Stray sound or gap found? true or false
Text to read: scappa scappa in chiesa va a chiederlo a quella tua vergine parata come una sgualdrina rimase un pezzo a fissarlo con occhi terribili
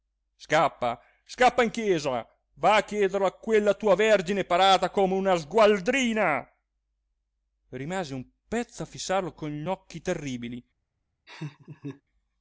true